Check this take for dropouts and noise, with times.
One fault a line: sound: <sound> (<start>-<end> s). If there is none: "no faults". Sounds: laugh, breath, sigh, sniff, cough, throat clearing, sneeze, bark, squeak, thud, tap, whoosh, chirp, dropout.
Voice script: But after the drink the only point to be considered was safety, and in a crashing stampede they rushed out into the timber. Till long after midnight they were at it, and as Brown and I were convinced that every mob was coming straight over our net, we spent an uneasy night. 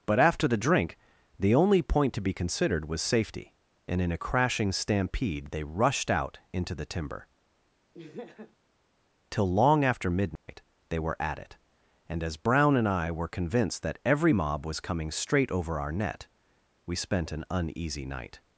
sound: laugh (7.9-8.6 s)
sound: dropout (10.4-10.5 s)